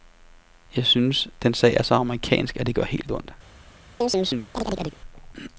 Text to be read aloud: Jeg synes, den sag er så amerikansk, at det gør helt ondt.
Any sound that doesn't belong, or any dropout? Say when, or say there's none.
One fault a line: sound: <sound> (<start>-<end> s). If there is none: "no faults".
sound: chirp (4.0-5.0 s)